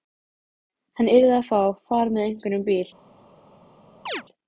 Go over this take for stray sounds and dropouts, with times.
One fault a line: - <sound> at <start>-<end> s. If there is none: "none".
- chirp at 4.1-4.2 s